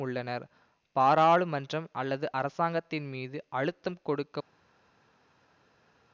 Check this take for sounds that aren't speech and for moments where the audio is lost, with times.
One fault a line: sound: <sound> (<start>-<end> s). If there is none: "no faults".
no faults